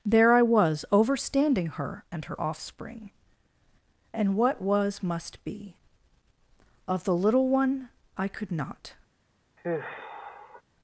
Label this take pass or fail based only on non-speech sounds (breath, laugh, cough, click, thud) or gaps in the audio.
fail